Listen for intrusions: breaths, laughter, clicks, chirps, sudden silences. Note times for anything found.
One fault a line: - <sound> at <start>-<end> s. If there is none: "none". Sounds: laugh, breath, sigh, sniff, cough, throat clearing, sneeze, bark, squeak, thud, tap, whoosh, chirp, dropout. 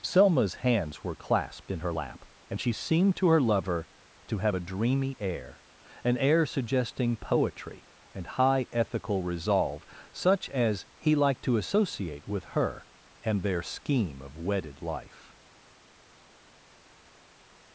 none